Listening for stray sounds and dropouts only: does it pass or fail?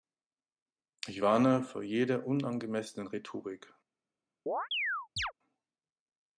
fail